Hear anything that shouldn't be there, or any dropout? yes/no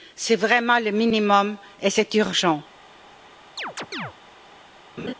yes